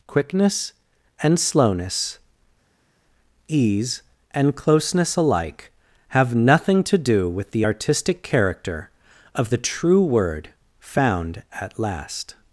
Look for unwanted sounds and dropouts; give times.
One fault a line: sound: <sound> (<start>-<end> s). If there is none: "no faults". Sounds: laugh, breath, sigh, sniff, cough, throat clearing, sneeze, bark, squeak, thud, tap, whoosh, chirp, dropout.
no faults